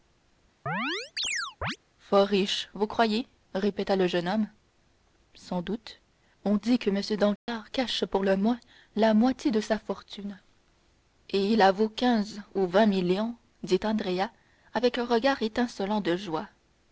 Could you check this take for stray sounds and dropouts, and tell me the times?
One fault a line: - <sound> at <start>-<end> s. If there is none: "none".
- chirp at 0.7-1.8 s
- dropout at 7.4-7.5 s